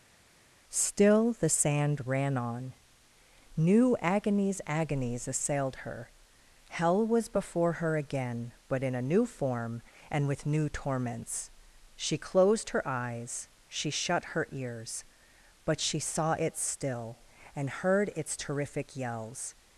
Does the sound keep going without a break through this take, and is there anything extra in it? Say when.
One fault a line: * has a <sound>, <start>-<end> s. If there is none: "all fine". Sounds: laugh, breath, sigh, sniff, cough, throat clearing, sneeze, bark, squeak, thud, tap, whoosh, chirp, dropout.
all fine